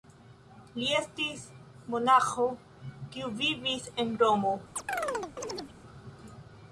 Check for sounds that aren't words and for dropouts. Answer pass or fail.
fail